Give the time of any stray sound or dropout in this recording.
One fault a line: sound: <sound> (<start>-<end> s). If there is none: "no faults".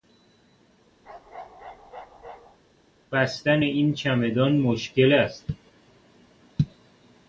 sound: bark (1.0-2.6 s)